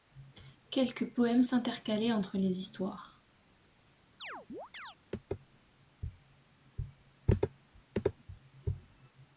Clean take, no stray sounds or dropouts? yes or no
no